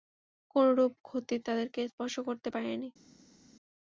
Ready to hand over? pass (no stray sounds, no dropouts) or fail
pass